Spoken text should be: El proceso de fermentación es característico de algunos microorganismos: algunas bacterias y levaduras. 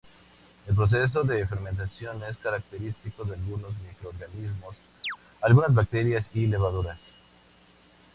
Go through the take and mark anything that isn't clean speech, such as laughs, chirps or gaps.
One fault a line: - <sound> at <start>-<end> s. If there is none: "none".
- chirp at 5.0-5.2 s